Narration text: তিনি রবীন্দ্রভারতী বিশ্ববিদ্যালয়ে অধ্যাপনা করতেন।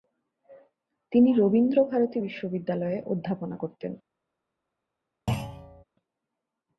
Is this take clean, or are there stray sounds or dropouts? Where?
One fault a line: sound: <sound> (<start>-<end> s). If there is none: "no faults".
sound: thud (5.3-5.8 s)